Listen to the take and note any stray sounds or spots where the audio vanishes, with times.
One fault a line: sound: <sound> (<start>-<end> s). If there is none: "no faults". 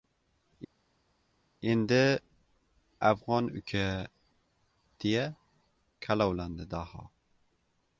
no faults